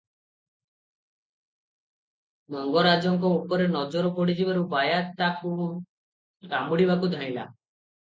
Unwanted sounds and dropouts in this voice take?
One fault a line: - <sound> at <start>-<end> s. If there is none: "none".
none